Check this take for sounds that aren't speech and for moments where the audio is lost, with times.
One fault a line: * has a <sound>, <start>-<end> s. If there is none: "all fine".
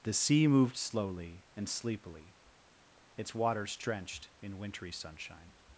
all fine